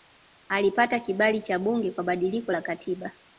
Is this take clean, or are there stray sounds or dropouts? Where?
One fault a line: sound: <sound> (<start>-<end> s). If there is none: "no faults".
no faults